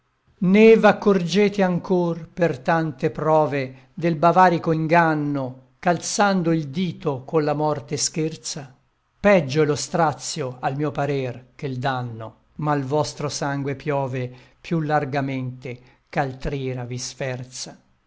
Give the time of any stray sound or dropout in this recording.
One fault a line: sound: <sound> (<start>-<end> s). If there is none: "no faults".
no faults